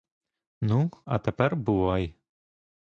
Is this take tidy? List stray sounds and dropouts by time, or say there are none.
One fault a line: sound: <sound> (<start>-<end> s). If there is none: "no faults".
no faults